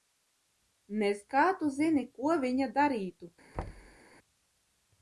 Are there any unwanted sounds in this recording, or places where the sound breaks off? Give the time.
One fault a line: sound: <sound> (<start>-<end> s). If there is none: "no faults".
sound: thud (3.5-4.0 s)